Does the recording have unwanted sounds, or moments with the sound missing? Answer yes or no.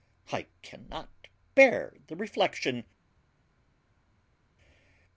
no